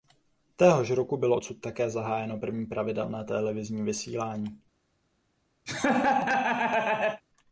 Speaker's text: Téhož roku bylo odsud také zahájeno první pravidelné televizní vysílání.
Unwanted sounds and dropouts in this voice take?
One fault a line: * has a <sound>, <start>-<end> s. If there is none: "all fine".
* has a laugh, 5.7-7.2 s